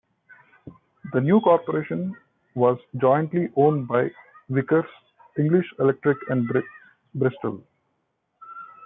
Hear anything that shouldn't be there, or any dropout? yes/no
no